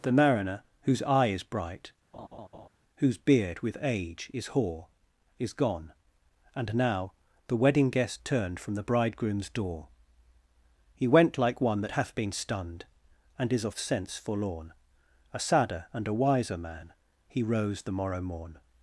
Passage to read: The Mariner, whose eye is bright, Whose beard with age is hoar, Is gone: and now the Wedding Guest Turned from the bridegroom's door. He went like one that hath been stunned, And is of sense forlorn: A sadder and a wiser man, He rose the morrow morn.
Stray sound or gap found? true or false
true